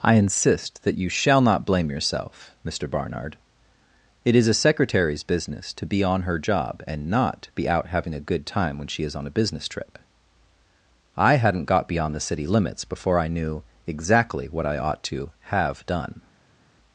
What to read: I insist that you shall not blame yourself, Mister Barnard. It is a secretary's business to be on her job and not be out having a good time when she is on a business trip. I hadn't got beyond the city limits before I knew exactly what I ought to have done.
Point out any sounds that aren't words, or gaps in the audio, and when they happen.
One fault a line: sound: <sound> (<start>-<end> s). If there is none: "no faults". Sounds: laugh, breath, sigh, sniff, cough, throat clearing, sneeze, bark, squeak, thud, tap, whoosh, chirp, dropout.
no faults